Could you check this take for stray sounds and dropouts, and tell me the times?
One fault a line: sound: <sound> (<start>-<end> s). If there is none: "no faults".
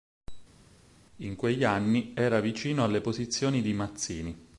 no faults